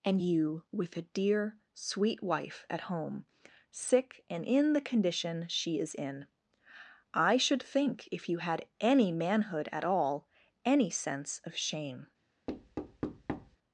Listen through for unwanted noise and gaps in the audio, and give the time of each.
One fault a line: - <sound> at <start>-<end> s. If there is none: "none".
- thud at 12.5-13.6 s